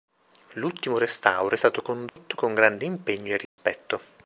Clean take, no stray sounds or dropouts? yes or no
no